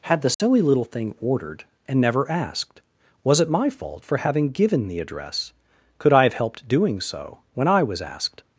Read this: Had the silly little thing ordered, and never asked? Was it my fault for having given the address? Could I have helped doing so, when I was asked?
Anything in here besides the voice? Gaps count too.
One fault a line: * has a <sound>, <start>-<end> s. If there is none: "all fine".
* has a dropout, 0.3-0.4 s